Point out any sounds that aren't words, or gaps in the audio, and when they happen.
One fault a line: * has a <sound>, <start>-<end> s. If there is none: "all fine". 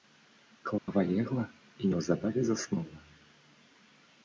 * has a dropout, 0.8-0.9 s